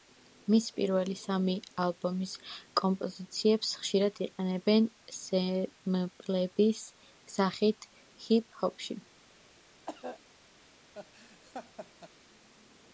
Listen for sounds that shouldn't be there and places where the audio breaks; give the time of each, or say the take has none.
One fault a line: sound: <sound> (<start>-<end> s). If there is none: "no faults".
sound: cough (9.9-10.2 s)
sound: laugh (10.9-12.1 s)